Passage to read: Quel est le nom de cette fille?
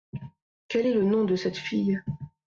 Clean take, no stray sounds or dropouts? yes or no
yes